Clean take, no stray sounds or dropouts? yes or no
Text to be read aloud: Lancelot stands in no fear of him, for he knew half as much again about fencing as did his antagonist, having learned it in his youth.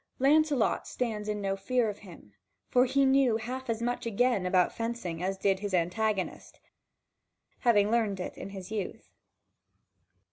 yes